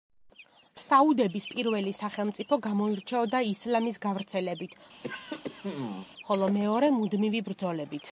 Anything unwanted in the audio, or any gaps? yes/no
yes